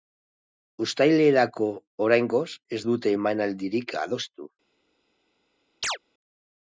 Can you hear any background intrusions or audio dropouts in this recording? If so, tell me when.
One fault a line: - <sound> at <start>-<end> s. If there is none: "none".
- chirp at 5.8-6.0 s